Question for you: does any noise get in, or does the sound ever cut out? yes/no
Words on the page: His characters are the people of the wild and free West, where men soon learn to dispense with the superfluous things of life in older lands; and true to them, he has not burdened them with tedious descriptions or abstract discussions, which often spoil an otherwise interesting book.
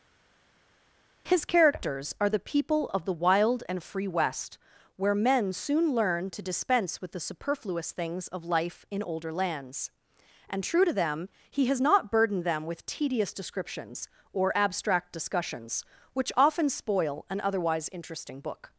no